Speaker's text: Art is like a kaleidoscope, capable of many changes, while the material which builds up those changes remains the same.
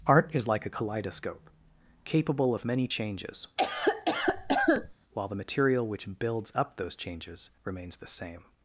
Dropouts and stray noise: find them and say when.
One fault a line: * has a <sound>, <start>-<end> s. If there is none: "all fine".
* has a cough, 3.6-4.9 s